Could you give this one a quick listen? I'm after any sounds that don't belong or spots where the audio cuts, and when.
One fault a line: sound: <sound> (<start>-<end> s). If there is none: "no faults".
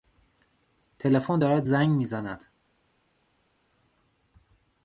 no faults